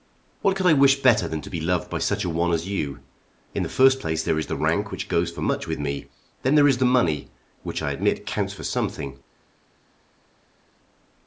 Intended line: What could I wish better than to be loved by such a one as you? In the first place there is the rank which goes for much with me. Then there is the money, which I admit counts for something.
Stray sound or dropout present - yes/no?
no